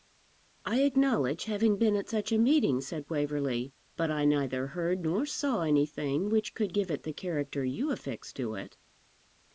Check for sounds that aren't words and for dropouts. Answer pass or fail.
pass